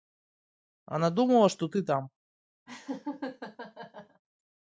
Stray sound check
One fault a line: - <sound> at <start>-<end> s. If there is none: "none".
- laugh at 2.7-4.2 s